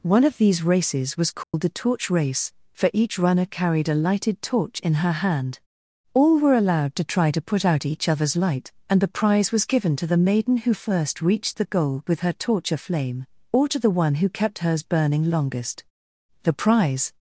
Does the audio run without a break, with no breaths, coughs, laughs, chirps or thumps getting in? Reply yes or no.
no